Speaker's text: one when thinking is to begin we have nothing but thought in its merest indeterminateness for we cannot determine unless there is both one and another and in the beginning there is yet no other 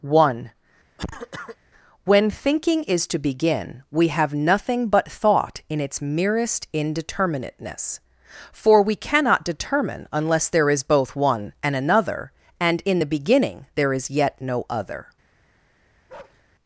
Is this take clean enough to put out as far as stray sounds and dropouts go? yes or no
no